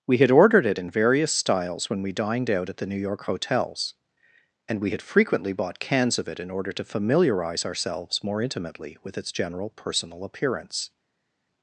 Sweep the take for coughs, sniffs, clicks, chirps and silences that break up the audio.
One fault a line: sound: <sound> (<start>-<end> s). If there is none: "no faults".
no faults